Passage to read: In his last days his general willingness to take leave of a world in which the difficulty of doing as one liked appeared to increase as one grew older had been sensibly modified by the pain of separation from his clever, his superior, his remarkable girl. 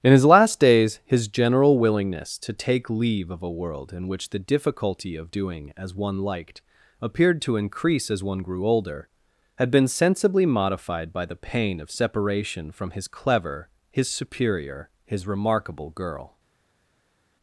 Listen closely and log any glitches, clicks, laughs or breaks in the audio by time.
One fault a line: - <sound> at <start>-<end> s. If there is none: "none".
none